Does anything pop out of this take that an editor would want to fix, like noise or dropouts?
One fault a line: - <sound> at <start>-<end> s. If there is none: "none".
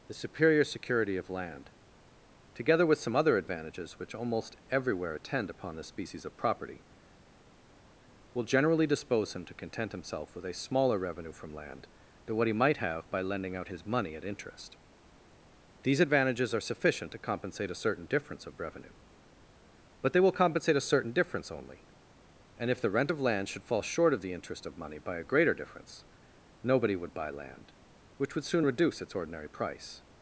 none